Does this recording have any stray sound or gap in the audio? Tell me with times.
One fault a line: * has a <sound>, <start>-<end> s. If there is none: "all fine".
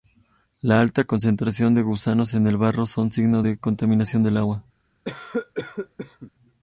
* has a cough, 5.0-6.3 s